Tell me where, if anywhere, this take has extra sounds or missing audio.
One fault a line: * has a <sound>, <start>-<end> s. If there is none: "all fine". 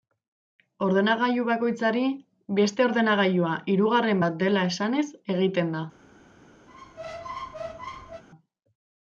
* has a squeak, 6.7-8.2 s